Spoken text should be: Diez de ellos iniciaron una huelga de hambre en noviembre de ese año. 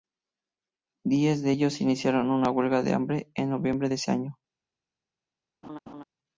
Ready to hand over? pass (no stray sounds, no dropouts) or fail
fail